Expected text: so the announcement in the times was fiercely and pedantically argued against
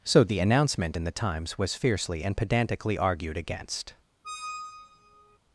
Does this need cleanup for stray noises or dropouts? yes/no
yes